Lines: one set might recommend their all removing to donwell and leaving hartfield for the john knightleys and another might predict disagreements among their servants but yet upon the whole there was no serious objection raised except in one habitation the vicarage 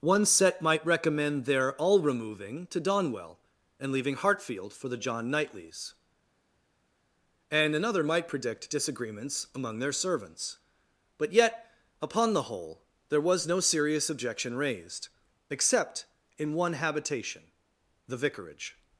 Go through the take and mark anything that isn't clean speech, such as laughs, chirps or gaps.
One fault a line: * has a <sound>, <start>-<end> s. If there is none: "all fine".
all fine